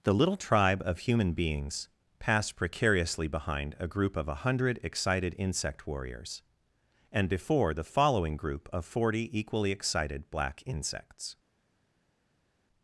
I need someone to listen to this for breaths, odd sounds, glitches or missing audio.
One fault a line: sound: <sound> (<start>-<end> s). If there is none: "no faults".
no faults